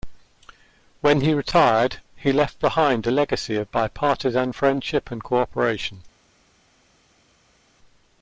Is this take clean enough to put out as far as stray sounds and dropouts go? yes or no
yes